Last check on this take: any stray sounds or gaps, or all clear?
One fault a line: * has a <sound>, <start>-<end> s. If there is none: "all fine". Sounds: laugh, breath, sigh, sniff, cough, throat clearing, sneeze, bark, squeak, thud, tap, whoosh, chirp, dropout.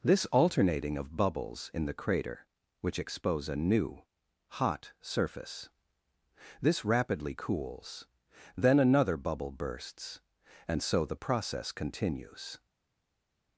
all fine